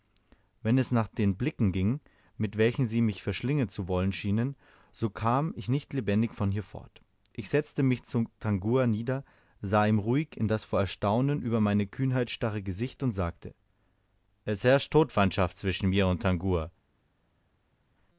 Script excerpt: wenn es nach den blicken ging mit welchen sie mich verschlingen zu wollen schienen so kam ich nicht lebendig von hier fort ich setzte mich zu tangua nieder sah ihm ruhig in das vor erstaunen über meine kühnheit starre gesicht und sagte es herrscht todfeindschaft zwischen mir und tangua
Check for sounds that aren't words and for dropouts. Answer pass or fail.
pass